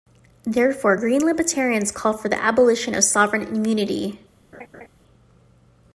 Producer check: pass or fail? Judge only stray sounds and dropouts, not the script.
fail